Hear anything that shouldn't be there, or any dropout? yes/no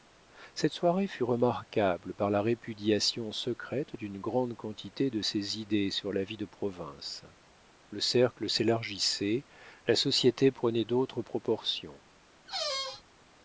yes